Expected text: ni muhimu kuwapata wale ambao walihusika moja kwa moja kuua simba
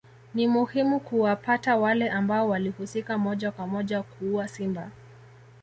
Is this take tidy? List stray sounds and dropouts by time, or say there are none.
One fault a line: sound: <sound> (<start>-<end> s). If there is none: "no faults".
no faults